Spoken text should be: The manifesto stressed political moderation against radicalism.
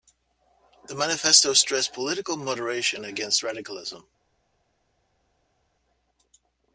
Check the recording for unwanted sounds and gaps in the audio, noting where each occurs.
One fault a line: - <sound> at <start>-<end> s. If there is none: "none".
none